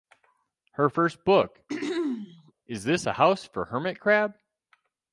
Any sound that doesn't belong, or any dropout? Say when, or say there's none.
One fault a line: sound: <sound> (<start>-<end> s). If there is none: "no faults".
sound: throat clearing (1.7-2.5 s)